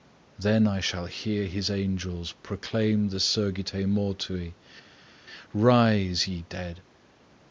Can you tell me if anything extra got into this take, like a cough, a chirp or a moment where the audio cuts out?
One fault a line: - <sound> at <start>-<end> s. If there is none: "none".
none